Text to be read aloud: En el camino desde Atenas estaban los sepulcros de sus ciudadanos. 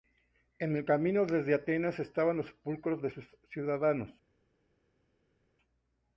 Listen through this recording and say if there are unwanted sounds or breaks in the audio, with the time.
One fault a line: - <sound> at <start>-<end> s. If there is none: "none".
none